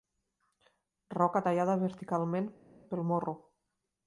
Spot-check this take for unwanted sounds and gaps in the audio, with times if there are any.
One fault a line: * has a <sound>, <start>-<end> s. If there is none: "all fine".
all fine